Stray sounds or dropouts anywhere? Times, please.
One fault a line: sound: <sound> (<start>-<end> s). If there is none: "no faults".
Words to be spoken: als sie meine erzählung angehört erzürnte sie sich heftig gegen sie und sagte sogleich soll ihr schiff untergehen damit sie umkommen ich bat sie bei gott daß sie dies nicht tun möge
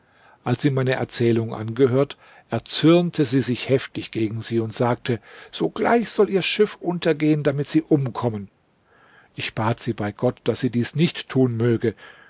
no faults